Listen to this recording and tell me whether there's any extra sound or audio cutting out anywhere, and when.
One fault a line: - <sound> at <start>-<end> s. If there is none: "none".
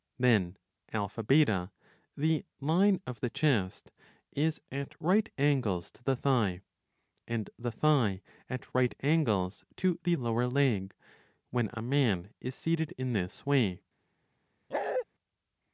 - bark at 14.7-15.0 s